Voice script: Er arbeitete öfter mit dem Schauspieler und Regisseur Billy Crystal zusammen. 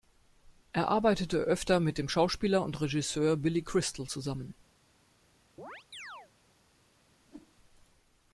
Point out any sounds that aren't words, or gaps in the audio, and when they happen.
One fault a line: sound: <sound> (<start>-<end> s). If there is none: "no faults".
sound: chirp (5.6-6.3 s)
sound: whoosh (7.2-7.5 s)